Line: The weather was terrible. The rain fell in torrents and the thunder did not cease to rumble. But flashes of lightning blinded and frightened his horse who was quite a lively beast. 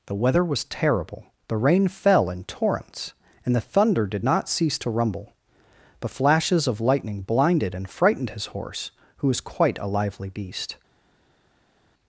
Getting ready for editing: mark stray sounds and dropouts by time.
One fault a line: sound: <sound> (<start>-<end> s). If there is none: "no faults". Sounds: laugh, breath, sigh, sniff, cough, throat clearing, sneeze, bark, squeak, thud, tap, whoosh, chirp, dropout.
no faults